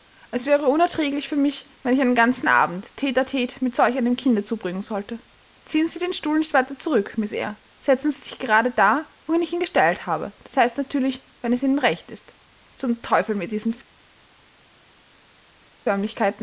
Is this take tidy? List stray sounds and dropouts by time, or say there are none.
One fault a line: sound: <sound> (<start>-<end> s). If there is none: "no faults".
no faults